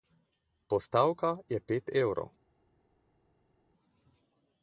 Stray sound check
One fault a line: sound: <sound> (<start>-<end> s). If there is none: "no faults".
no faults